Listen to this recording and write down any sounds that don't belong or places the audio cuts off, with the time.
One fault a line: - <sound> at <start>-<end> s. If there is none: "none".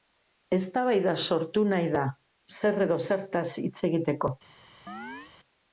- chirp at 4.9-5.3 s